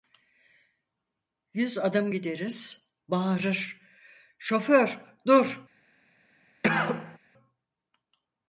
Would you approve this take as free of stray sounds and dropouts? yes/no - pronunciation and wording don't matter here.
no